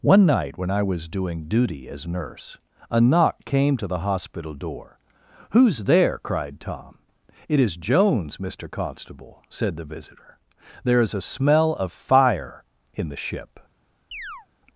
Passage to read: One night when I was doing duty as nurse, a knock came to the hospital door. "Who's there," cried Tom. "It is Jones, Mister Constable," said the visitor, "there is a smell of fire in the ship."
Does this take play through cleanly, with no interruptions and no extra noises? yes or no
no